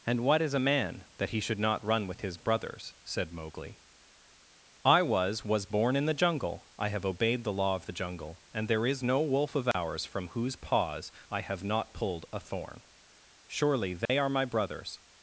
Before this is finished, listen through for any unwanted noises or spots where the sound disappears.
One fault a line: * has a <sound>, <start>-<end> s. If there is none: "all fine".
* has a dropout, 9.7-9.7 s
* has a dropout, 14.1-14.1 s